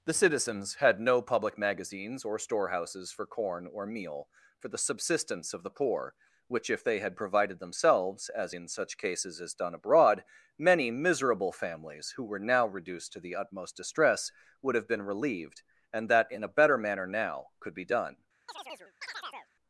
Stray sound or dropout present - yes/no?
yes